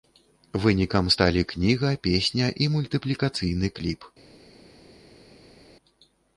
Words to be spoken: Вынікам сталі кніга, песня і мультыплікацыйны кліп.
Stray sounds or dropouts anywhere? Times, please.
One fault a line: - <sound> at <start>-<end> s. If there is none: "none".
none